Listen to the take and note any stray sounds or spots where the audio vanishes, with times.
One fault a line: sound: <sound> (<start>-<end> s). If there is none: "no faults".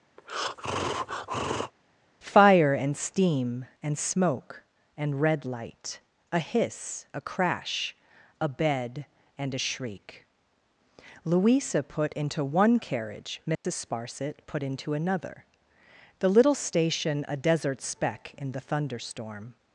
sound: breath (0.2-1.7 s)
sound: dropout (13.5-13.6 s)